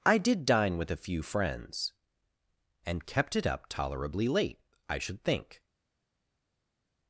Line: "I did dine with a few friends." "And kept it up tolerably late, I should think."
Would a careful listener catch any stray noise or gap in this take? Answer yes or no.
no